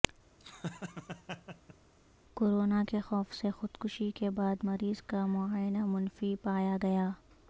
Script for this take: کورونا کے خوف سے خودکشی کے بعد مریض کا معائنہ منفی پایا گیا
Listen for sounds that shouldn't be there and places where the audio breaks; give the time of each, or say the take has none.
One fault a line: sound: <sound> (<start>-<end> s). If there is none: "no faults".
sound: laugh (0.4-1.8 s)